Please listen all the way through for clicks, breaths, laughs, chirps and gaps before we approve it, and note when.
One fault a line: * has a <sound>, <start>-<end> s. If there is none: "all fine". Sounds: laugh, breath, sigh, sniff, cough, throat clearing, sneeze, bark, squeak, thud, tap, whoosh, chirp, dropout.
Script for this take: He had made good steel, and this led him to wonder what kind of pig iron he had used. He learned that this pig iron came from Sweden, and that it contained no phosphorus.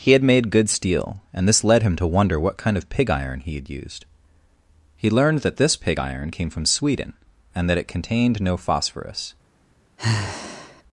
* has a sigh, 10.0-10.8 s